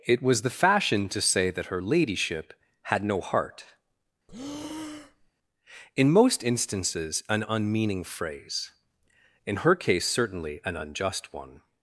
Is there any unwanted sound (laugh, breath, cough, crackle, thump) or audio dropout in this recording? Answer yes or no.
yes